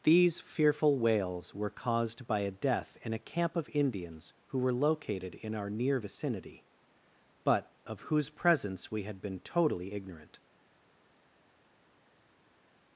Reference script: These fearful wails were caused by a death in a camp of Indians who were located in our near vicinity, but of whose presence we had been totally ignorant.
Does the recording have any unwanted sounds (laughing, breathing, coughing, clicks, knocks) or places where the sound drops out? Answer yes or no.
no